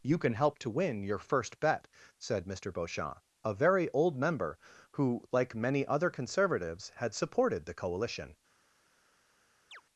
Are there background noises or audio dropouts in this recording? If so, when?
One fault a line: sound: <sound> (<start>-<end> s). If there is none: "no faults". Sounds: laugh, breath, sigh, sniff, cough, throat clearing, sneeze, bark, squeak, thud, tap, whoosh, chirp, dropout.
sound: chirp (9.7-9.8 s)